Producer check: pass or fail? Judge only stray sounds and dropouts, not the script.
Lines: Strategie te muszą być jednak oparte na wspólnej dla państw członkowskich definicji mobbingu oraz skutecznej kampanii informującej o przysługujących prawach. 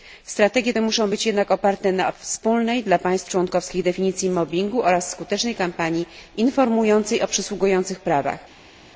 pass